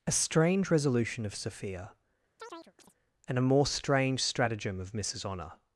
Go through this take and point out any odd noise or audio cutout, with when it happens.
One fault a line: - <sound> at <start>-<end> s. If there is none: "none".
- chirp at 2.4-2.9 s